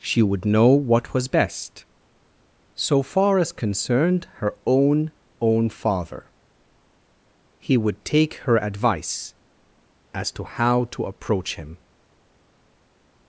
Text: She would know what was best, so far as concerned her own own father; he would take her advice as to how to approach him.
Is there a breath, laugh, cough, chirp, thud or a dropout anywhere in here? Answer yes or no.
no